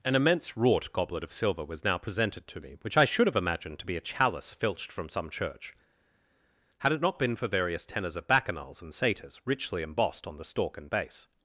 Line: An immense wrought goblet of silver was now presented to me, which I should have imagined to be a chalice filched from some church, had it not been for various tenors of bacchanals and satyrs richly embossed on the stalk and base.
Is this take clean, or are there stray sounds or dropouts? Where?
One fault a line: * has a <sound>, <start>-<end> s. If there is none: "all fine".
all fine